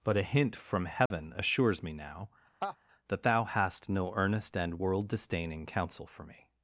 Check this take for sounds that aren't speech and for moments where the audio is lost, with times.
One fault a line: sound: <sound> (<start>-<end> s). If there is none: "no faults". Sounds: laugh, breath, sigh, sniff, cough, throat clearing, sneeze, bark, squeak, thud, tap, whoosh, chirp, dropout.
sound: dropout (1.1-1.1 s)
sound: laugh (2.6-2.8 s)